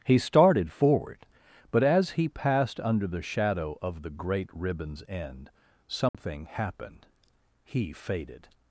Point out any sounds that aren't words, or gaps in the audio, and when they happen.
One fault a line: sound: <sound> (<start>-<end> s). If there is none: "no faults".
sound: dropout (6.1-6.1 s)